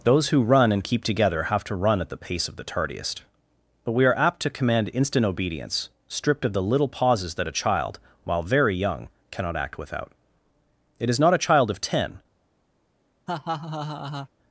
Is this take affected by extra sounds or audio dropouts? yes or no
yes